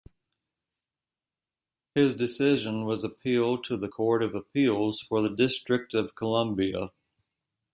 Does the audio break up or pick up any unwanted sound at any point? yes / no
no